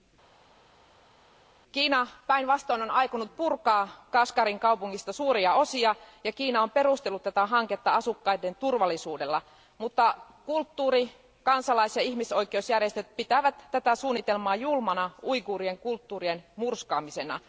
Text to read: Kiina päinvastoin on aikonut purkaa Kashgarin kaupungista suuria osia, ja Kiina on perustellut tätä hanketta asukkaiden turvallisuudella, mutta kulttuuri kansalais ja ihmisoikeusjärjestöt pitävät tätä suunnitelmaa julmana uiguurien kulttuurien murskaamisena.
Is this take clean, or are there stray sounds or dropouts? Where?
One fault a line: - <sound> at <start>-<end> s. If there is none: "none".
none